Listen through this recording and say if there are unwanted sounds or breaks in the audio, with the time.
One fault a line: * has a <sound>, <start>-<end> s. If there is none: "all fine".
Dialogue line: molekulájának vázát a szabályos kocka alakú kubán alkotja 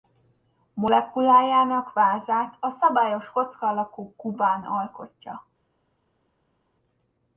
all fine